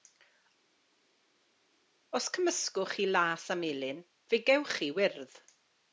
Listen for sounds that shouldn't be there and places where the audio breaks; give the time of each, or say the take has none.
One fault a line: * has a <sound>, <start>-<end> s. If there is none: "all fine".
all fine